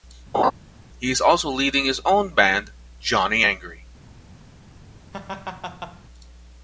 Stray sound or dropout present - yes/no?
yes